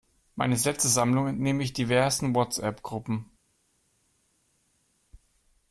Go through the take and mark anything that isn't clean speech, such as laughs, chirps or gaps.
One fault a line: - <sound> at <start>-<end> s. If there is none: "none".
none